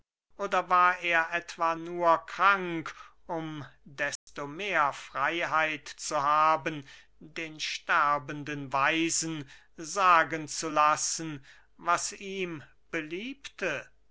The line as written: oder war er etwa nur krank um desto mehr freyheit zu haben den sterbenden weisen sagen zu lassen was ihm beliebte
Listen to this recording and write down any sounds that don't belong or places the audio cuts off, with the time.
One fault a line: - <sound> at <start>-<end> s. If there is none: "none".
- dropout at 4.2-4.3 s